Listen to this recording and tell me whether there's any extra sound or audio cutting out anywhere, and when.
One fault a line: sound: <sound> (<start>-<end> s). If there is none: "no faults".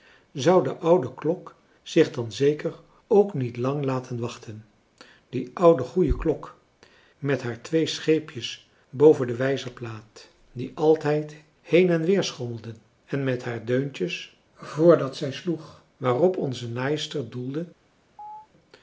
sound: chirp (18.2-18.5 s)